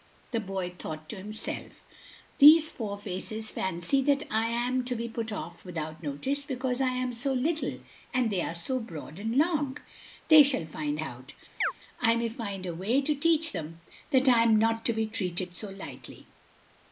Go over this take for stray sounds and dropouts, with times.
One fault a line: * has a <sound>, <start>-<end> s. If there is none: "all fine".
* has a chirp, 11.6-11.7 s